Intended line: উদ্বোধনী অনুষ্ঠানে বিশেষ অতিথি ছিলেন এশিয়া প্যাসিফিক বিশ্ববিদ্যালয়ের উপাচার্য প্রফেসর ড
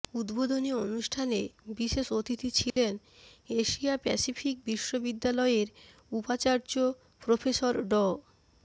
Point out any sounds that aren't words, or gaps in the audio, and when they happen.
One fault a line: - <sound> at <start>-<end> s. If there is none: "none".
- dropout at 2.7-2.8 s